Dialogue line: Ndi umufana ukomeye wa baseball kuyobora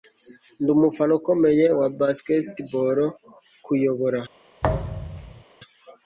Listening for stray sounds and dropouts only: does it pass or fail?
fail